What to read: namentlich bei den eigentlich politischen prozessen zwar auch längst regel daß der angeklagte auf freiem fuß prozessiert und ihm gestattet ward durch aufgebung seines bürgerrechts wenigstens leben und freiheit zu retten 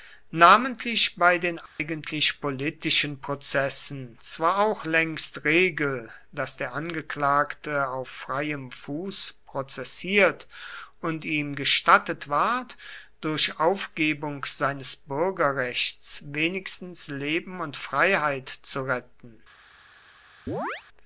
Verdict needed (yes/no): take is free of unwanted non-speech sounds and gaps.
no